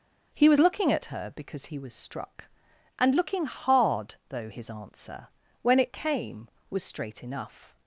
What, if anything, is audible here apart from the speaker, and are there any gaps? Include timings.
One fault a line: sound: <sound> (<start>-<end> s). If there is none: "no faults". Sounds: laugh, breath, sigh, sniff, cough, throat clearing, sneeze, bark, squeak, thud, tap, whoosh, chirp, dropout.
no faults